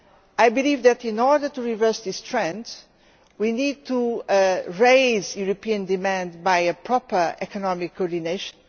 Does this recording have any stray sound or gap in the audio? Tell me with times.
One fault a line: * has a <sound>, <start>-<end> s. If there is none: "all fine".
all fine